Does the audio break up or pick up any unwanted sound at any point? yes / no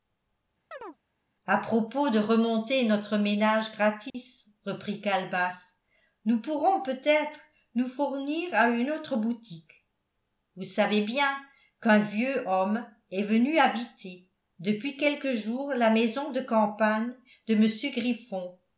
yes